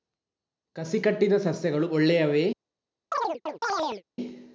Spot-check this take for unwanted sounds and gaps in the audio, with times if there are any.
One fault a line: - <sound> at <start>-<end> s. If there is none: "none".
- chirp at 3.1-4.0 s